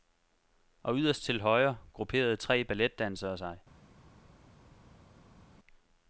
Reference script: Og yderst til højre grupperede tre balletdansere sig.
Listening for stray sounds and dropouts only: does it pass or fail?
pass